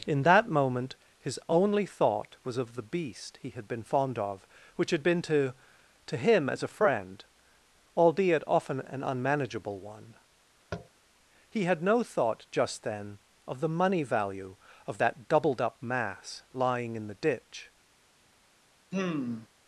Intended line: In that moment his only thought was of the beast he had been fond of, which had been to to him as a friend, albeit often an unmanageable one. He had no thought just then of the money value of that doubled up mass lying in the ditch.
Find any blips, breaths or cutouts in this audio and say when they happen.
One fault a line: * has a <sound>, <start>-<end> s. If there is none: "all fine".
* has a tap, 10.7-10.9 s
* has a sigh, 18.9-19.5 s